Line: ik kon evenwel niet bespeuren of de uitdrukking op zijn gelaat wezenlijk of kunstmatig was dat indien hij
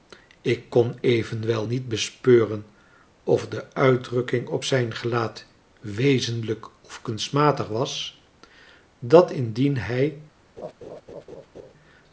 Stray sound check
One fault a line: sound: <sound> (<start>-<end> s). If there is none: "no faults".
sound: laugh (10.6-11.7 s)